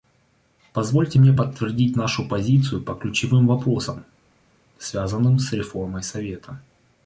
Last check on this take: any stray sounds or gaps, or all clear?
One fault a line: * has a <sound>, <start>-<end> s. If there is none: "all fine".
all fine